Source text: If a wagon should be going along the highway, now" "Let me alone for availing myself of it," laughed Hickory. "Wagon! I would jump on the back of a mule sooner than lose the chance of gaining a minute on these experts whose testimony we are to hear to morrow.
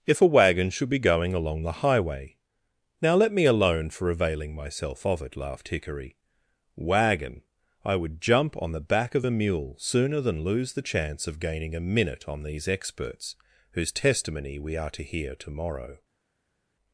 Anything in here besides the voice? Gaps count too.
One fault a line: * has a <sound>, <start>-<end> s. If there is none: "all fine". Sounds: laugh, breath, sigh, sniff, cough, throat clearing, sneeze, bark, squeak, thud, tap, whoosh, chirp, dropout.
all fine